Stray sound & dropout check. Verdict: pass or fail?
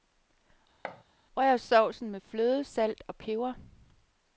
fail